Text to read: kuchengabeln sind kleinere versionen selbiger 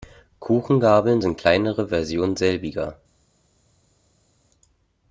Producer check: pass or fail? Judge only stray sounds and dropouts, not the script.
pass